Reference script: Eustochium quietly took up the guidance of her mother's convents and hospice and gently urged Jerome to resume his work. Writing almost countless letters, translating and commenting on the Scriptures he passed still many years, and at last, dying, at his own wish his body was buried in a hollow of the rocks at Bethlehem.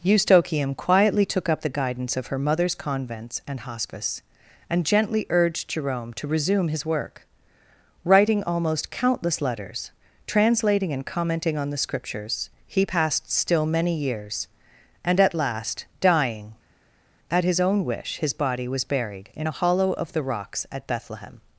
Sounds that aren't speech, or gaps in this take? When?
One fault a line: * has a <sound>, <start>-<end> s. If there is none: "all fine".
all fine